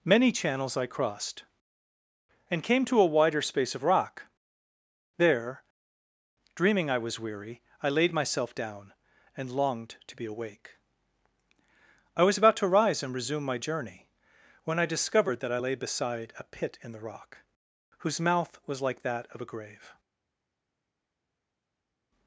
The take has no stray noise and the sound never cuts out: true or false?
true